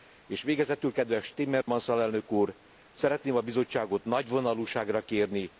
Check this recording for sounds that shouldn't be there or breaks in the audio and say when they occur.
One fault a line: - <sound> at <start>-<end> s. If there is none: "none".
- dropout at 1.6-1.7 s